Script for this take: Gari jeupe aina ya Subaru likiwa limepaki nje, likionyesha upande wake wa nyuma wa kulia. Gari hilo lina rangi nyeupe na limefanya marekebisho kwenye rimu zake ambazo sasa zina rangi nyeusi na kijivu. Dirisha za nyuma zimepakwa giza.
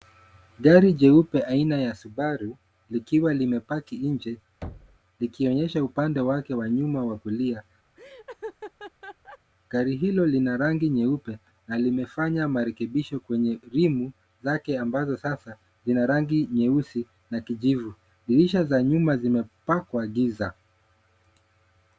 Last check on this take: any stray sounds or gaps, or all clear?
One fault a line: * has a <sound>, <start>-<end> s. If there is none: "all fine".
* has a thud, 4.6-5.0 s
* has a laugh, 8.0-9.4 s